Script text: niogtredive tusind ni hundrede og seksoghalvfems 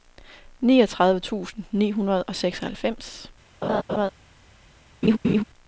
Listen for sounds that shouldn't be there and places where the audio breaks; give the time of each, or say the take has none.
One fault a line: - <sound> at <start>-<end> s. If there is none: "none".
- laugh at 3.6-4.1 s
- laugh at 5.0-5.4 s